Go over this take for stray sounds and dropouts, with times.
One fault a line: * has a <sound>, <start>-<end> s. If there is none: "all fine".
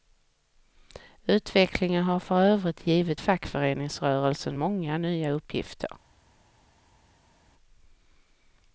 all fine